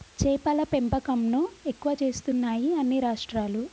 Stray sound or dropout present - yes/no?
no